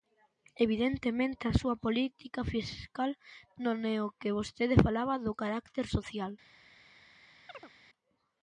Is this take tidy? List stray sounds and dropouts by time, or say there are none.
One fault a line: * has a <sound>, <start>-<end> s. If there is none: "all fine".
* has a chirp, 7.5-7.7 s